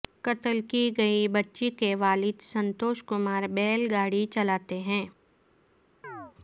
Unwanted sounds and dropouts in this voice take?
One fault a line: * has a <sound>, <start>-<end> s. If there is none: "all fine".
* has a chirp, 6.0-6.3 s